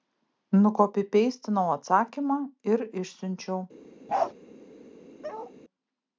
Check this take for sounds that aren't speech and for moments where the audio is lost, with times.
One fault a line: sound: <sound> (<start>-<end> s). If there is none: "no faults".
sound: bark (4.1-4.3 s)
sound: bark (5.2-5.5 s)